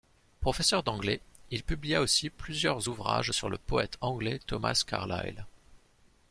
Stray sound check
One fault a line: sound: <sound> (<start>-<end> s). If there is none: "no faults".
no faults